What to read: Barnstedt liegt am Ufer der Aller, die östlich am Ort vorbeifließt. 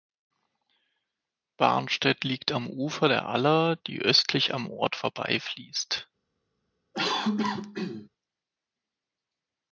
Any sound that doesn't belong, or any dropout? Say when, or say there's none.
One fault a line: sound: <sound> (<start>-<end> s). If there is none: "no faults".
sound: cough (6.9-8.1 s)